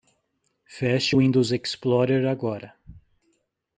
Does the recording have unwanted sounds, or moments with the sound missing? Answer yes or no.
no